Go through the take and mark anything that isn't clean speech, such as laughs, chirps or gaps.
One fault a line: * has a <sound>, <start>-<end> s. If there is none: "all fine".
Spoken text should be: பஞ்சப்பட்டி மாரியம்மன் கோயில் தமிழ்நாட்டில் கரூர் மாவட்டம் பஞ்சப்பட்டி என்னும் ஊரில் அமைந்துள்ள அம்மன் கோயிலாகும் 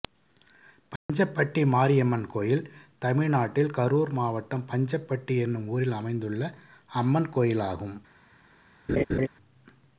* has a dropout, 1.0-1.1 s
* has a laugh, 8.9-9.3 s